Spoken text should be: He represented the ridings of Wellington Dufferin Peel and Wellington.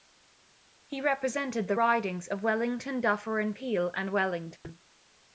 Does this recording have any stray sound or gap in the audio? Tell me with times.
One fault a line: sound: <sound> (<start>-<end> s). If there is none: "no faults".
sound: dropout (4.6-4.6 s)